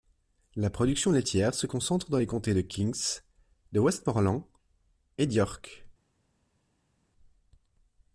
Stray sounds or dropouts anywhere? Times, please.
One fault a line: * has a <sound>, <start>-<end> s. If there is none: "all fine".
all fine